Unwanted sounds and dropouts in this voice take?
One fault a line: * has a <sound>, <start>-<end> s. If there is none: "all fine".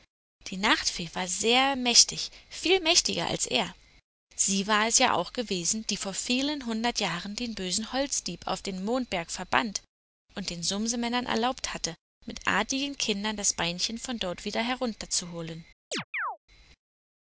* has a chirp, 15.9-16.4 s